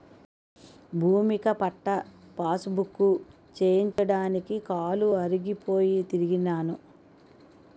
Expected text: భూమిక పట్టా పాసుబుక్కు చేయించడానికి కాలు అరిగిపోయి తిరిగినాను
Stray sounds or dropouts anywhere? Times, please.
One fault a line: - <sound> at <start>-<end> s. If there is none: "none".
- dropout at 3.9-4.0 s